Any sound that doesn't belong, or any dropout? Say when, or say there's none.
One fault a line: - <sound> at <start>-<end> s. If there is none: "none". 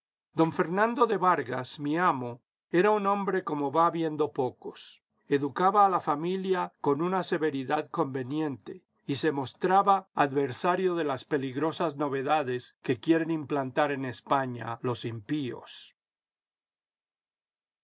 none